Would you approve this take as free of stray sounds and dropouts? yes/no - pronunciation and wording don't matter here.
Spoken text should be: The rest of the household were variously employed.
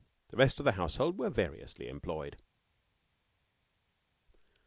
yes